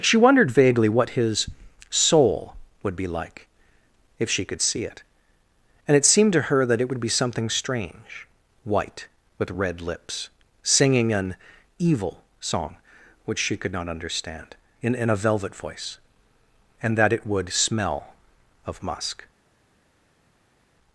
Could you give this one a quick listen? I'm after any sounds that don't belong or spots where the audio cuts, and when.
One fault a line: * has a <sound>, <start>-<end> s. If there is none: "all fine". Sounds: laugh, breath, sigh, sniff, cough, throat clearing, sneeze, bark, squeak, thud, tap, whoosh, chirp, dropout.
all fine